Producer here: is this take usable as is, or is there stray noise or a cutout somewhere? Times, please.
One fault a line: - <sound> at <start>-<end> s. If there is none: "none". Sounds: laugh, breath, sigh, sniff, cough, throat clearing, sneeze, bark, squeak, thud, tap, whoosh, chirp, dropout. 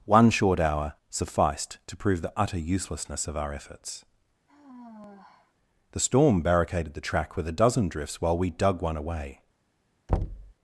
- sigh at 4.5-5.5 s
- thud at 10.1-10.5 s